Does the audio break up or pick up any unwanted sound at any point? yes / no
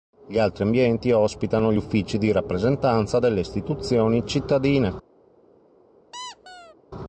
yes